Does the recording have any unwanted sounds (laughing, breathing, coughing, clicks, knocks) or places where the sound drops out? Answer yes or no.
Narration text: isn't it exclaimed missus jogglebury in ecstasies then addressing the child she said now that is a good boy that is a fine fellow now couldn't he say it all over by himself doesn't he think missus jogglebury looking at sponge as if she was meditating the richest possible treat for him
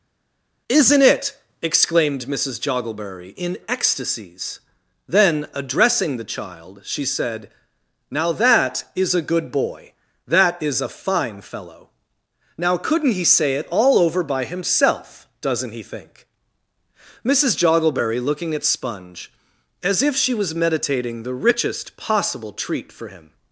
no